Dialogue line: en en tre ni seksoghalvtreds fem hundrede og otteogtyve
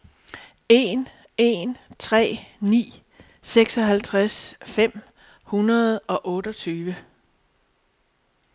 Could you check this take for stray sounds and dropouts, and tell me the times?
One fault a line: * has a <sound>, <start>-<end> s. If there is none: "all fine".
all fine